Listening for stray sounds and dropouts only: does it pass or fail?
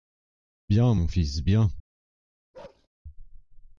fail